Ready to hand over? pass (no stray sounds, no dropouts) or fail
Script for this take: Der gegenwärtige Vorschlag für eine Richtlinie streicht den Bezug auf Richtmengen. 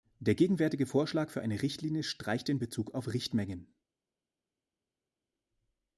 pass